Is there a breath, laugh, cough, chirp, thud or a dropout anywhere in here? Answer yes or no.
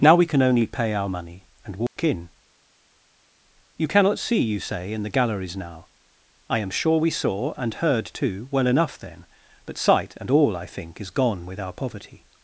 yes